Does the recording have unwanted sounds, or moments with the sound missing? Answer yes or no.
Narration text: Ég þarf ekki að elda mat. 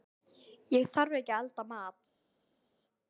no